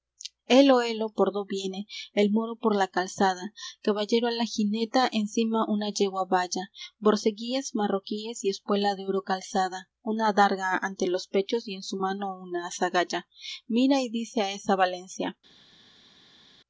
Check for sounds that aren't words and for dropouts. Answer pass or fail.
pass